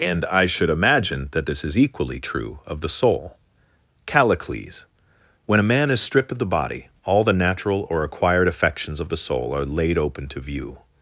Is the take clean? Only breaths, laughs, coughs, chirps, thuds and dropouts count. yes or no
yes